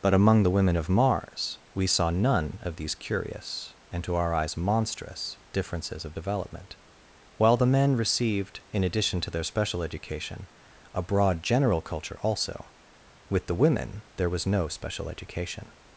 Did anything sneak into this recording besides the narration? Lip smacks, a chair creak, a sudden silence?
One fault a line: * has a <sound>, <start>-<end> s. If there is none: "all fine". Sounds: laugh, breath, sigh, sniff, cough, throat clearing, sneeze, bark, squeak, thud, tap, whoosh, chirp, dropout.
all fine